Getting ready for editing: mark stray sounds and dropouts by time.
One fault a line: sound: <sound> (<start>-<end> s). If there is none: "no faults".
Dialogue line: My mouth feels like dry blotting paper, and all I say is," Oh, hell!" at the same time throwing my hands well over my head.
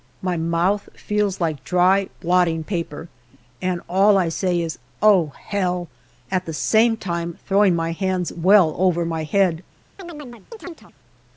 sound: chirp (10.0-10.9 s)